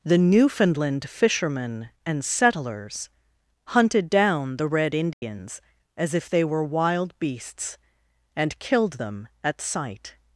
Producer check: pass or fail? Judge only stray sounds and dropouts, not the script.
fail